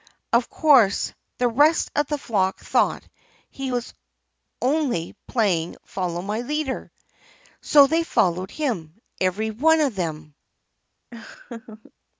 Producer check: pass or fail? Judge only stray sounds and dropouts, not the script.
fail